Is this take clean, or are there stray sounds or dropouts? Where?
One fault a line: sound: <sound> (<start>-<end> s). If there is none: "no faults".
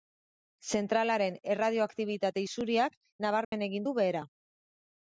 sound: dropout (3.4-3.5 s)